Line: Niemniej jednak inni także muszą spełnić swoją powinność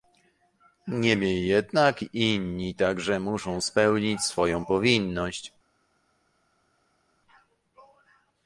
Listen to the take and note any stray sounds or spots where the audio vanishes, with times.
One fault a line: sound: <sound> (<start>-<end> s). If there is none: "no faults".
no faults